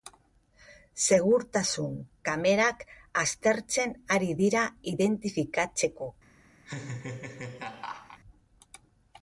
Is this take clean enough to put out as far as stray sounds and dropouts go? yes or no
no